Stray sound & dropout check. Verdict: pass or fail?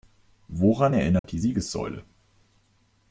fail